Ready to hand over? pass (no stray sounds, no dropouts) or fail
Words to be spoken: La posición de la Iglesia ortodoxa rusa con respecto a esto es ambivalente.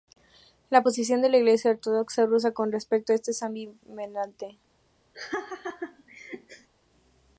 fail